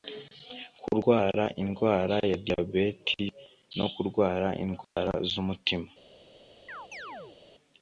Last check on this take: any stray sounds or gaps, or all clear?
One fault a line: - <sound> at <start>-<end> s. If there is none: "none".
- dropout at 4.8-5.0 s
- chirp at 6.7-7.4 s